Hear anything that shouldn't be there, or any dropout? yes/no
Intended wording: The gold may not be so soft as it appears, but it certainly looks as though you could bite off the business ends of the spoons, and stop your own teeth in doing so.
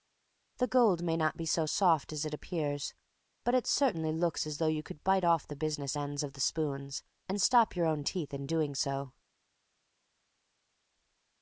no